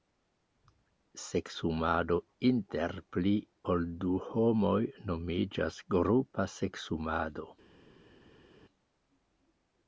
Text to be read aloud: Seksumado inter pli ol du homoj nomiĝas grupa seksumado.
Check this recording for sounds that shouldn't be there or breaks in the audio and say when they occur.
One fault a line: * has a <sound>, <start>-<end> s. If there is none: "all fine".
all fine